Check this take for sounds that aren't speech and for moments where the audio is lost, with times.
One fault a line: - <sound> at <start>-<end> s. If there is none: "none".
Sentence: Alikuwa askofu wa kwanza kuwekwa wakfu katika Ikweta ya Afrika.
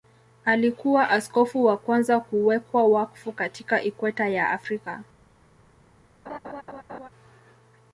- laugh at 6.3-7.1 s